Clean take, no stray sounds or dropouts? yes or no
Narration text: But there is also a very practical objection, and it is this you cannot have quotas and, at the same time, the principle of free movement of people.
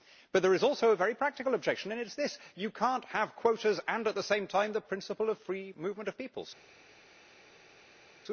yes